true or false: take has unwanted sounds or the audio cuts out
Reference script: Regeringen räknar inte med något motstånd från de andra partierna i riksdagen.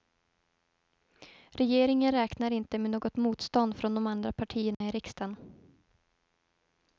true